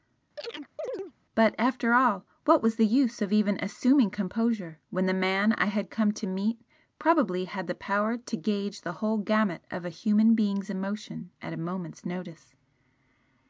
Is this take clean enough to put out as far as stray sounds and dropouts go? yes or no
no